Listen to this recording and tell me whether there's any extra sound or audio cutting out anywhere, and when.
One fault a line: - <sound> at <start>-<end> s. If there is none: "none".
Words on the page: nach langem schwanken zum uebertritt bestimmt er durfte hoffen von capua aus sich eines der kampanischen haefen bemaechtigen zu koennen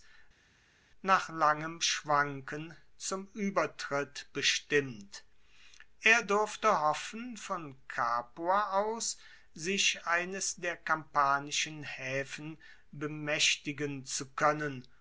none